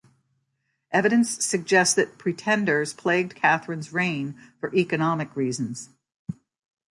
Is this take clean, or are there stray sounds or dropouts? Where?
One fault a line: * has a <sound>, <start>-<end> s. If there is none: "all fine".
all fine